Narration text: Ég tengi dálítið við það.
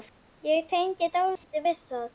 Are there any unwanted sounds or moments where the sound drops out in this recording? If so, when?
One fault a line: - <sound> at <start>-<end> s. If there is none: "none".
- dropout at 1.4-1.4 s